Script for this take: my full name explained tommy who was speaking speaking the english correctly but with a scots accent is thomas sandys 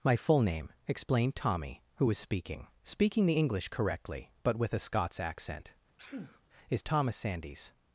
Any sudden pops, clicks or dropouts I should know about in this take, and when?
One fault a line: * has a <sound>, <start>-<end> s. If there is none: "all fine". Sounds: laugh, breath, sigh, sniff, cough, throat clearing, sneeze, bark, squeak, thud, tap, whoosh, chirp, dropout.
* has a sneeze, 6.0-6.4 s